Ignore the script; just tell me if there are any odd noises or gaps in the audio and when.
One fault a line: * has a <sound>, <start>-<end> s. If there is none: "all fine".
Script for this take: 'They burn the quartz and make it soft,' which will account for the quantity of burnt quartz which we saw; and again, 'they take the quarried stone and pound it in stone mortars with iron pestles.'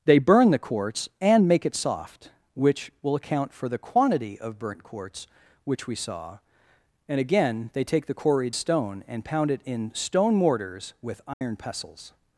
* has a dropout, 11.3-11.4 s